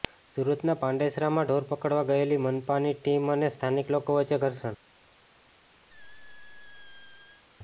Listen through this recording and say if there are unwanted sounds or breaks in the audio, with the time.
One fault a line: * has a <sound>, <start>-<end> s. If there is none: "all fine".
* has a squeak, 5.9-7.4 s